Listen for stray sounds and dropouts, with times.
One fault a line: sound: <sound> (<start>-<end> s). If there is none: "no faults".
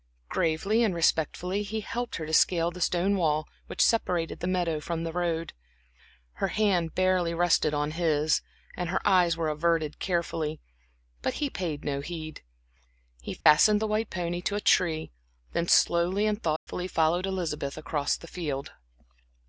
sound: dropout (13.4-13.5 s)
sound: dropout (16.6-16.7 s)